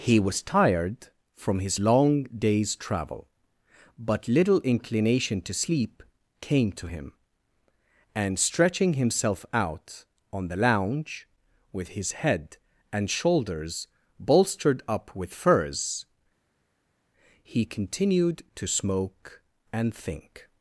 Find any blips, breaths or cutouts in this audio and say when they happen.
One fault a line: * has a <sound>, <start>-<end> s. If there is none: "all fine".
all fine